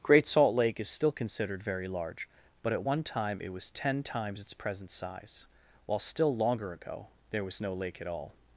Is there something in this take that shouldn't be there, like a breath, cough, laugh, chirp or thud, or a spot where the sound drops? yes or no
no